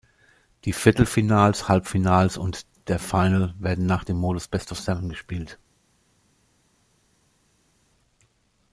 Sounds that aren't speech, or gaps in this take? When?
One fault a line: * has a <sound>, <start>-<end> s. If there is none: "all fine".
all fine